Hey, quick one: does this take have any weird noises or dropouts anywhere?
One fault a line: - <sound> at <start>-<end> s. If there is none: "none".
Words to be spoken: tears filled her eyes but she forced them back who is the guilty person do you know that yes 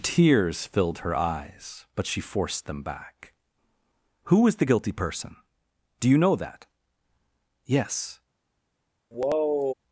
- sigh at 9.1-9.7 s